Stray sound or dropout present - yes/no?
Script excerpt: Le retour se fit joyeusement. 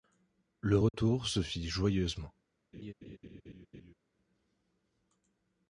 yes